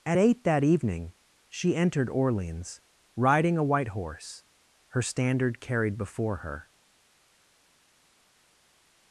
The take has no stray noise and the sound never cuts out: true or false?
true